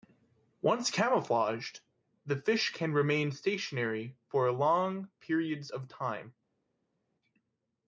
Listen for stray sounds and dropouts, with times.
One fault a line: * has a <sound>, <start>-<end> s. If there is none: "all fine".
all fine